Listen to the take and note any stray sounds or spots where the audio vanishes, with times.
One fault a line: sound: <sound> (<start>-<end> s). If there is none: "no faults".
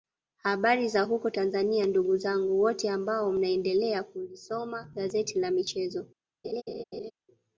sound: laugh (6.4-7.1 s)